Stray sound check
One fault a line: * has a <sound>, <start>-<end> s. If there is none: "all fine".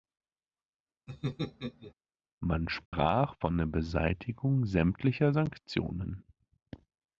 * has a laugh, 1.1-1.9 s
* has a dropout, 2.9-2.9 s